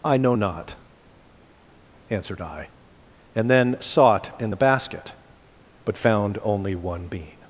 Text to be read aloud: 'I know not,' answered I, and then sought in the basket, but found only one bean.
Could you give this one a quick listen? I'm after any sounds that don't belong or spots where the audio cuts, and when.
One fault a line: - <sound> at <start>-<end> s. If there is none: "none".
none